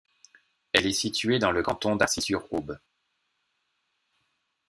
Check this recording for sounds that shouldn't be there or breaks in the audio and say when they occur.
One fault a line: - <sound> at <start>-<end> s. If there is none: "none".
none